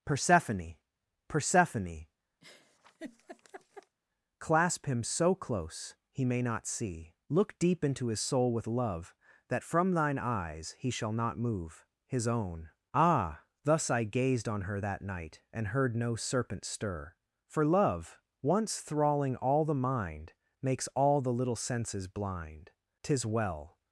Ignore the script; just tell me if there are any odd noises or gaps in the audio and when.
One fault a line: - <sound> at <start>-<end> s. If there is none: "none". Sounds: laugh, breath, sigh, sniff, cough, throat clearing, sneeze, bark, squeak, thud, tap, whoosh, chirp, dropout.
- laugh at 2.4-4.0 s